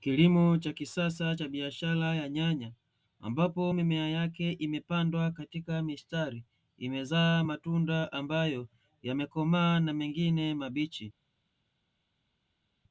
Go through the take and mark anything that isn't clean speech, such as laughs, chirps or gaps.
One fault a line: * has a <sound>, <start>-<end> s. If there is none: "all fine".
all fine